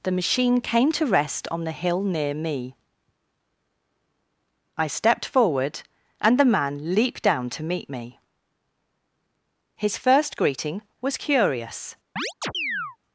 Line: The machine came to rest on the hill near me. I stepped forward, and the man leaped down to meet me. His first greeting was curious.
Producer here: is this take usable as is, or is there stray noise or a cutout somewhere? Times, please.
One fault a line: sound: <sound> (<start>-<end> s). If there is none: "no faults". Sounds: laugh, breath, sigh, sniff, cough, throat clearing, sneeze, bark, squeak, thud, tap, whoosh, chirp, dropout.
sound: chirp (12.2-13.0 s)